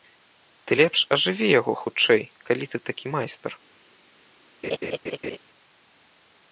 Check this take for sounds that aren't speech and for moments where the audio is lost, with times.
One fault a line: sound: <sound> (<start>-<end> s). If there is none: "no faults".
sound: laugh (4.6-5.4 s)